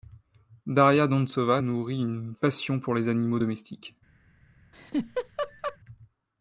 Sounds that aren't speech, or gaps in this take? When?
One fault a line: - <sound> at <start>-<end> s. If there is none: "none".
- laugh at 4.7-5.8 s